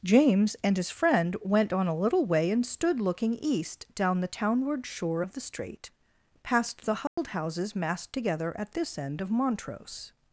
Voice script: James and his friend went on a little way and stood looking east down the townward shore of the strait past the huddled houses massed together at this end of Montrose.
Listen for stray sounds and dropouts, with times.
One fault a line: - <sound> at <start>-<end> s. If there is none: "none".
- dropout at 7.1-7.2 s